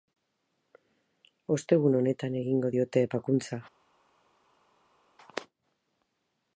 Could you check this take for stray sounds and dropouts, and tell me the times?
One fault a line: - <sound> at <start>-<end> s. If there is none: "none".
none